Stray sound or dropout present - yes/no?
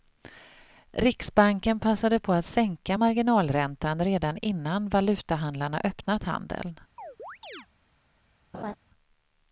yes